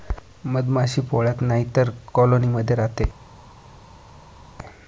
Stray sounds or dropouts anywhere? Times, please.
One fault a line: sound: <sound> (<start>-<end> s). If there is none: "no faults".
no faults